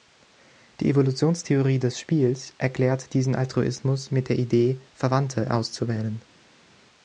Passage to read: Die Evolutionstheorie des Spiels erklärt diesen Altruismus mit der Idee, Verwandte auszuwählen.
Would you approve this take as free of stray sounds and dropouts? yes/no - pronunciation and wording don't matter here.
yes